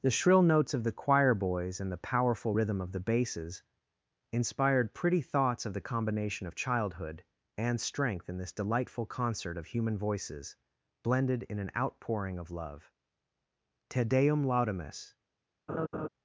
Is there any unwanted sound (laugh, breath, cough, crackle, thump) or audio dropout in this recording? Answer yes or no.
yes